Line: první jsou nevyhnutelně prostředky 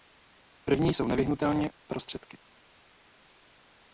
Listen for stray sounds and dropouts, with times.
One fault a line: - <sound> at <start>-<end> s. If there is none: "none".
none